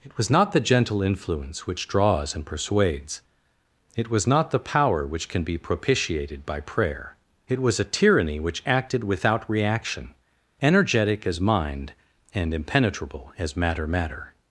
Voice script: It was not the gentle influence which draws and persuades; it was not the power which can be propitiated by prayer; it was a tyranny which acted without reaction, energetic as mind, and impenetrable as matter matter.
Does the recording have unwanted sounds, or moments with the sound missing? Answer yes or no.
no